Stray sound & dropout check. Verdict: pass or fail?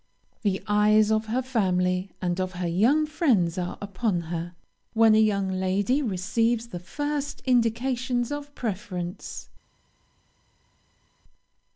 pass